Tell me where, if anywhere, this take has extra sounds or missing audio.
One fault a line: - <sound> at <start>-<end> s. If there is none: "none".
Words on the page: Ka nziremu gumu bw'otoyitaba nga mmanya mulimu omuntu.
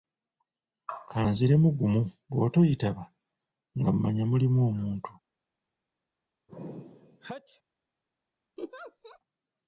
- sneeze at 6.5-7.6 s
- laugh at 8.6-9.2 s